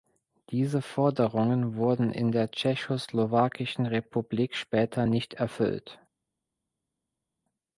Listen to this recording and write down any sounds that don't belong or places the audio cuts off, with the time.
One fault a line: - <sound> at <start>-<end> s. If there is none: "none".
none